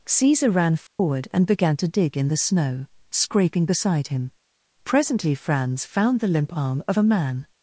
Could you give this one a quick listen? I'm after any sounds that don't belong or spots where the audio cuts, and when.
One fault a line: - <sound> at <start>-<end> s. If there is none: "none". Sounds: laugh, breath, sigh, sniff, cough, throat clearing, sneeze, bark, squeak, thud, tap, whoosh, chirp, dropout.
- dropout at 0.9-1.0 s